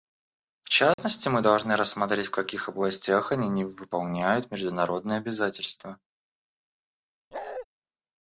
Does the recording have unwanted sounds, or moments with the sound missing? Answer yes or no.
yes